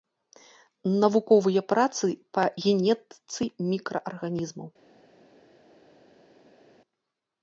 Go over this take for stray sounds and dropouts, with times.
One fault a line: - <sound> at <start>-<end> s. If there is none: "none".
none